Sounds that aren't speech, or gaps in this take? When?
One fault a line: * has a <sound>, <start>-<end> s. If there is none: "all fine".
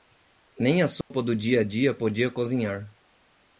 * has a dropout, 1.0-1.1 s